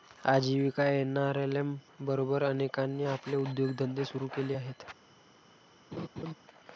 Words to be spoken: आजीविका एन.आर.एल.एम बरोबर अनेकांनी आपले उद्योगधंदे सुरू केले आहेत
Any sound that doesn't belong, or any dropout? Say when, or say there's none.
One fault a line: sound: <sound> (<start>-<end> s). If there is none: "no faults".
sound: laugh (5.9-6.3 s)